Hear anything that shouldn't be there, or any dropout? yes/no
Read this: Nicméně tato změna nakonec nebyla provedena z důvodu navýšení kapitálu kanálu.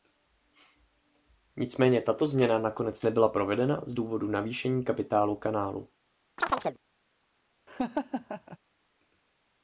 yes